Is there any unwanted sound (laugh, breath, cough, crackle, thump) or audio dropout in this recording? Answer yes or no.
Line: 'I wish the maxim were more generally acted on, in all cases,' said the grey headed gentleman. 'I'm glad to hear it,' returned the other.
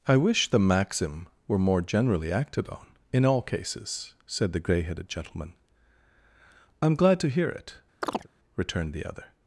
yes